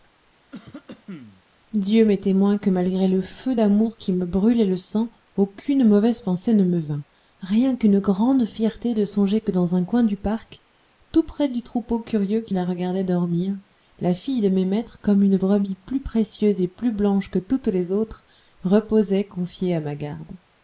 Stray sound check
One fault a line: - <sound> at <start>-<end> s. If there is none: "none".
- cough at 0.5-1.4 s